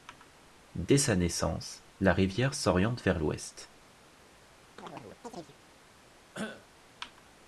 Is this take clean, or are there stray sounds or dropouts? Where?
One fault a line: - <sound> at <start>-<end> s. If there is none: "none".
- chirp at 4.8-5.6 s
- cough at 6.3-6.7 s